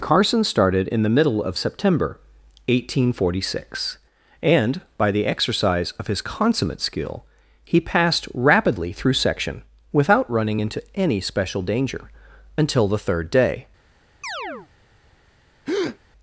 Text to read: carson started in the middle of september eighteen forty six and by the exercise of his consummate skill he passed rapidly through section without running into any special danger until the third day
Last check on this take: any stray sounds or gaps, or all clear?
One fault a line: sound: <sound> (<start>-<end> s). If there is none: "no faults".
sound: chirp (14.2-14.7 s)
sound: breath (15.7-16.0 s)